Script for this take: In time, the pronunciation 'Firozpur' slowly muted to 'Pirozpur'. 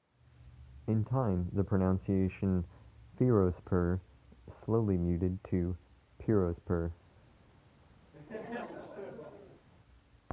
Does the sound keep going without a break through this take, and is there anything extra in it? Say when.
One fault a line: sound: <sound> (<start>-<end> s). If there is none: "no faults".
sound: laugh (8.1-9.7 s)